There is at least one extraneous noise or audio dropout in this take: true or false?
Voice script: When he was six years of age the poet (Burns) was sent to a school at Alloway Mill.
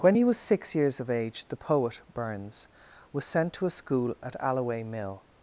false